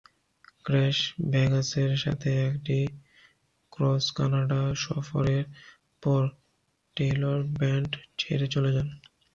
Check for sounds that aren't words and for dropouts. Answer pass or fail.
pass